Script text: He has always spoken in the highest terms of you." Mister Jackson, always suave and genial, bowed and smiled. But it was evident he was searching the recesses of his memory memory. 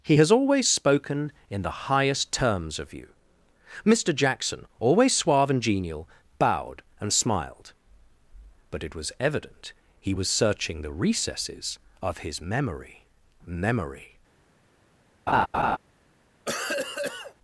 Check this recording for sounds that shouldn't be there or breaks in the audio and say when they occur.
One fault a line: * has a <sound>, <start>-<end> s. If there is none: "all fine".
* has a laugh, 15.3-15.8 s
* has a cough, 16.5-17.3 s